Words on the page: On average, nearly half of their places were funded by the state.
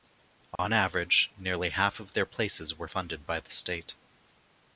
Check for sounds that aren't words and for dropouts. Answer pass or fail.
fail